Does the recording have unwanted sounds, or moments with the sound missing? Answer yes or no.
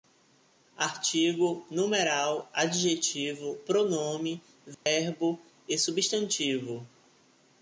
yes